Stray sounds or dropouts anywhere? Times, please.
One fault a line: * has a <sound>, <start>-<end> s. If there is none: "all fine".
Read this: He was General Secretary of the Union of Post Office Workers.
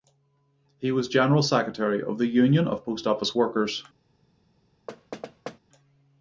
* has a thud, 4.9-5.6 s